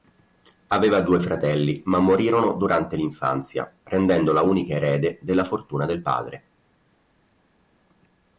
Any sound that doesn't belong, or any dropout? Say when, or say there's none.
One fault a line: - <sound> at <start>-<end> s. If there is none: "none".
none